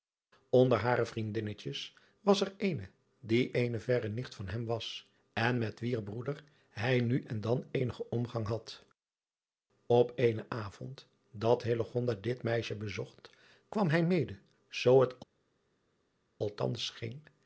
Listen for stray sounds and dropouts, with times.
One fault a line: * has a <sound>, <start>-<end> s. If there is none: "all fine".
all fine